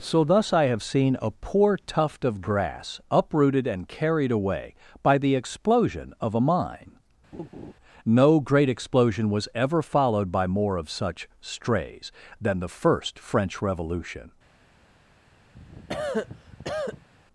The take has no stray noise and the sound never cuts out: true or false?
false